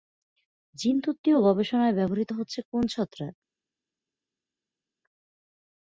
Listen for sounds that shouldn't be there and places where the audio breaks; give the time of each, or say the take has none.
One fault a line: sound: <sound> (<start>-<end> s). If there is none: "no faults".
no faults